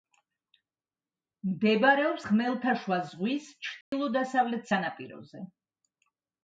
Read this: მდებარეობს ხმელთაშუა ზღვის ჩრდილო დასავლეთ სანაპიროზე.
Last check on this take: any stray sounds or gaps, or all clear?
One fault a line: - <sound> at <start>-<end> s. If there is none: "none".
- dropout at 3.8-3.9 s